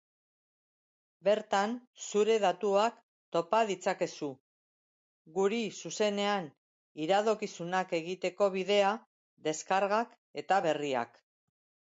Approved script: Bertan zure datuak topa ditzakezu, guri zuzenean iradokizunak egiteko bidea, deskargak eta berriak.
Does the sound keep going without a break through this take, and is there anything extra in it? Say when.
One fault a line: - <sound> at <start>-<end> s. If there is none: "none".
none